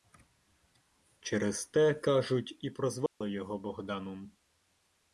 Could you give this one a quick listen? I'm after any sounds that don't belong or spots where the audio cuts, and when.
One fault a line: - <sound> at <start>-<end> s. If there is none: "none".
- dropout at 3.1-3.2 s